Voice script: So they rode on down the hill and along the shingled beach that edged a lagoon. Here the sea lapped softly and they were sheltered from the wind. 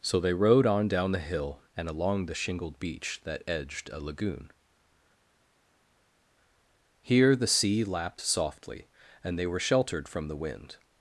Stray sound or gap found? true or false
false